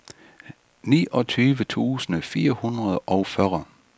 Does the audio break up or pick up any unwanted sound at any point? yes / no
no